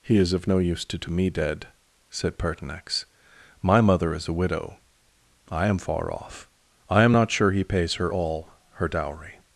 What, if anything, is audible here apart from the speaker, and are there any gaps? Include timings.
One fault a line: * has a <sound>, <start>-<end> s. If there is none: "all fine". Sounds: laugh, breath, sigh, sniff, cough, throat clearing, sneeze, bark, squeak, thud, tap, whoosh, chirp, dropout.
all fine